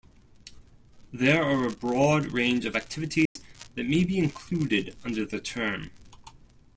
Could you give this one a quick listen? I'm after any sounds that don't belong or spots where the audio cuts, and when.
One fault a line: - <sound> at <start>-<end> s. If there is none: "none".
- dropout at 3.3-3.4 s